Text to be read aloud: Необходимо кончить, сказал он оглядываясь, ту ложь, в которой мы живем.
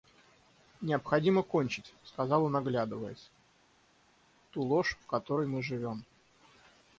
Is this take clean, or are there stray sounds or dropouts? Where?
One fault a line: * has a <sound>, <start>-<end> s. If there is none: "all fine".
all fine